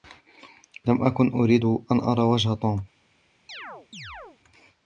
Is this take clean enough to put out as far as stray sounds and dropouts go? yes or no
no